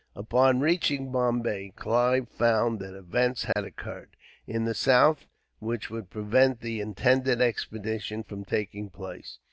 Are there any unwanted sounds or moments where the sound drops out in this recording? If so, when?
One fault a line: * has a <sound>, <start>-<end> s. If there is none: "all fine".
* has a dropout, 3.5-3.6 s